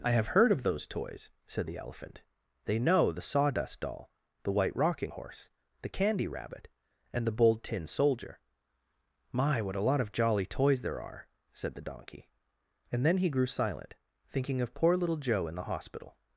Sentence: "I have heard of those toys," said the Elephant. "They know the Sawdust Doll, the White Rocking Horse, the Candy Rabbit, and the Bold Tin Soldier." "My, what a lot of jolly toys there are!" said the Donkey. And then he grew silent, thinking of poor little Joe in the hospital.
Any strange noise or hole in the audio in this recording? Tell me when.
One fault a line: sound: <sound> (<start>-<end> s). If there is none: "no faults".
no faults